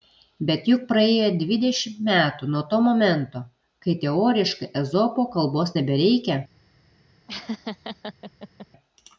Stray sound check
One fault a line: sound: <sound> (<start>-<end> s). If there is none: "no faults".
sound: laugh (7.3-8.7 s)